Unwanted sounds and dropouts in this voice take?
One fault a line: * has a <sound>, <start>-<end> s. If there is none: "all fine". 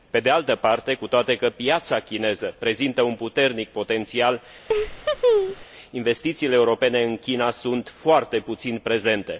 * has a laugh, 4.7-5.6 s